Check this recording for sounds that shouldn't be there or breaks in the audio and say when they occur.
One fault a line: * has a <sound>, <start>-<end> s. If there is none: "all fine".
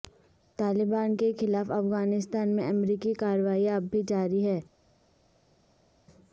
all fine